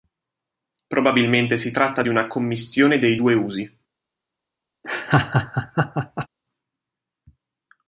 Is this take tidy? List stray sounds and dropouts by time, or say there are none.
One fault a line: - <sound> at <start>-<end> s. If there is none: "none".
- laugh at 4.8-6.3 s